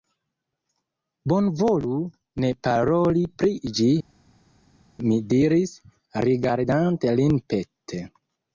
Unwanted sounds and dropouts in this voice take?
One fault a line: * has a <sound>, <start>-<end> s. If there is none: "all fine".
all fine